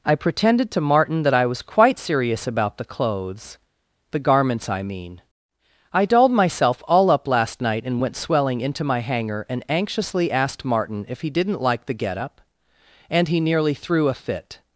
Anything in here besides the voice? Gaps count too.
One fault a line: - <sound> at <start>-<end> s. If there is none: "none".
none